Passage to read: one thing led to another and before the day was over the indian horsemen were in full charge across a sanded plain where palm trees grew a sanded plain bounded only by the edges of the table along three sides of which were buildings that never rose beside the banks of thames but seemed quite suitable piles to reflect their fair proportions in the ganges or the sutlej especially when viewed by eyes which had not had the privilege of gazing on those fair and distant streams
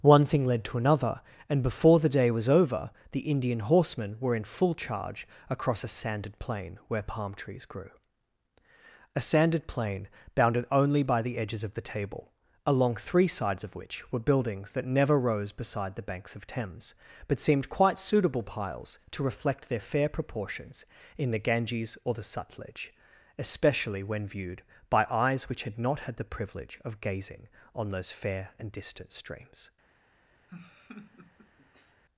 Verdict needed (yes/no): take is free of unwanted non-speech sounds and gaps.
no